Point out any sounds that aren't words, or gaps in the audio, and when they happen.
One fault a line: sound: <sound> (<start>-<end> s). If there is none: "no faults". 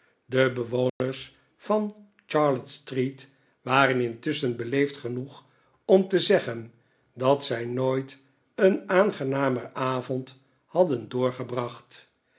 sound: dropout (0.9-1.0 s)